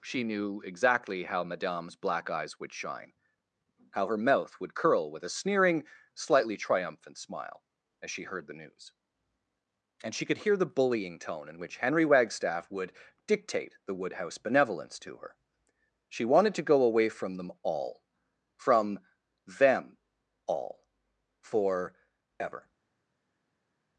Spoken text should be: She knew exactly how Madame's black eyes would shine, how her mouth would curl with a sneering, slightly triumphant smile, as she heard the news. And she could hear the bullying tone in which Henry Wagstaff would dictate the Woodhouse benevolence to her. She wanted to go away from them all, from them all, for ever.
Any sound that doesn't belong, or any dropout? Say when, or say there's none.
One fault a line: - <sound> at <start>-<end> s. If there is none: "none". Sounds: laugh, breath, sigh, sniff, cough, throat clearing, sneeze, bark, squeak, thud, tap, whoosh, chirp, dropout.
none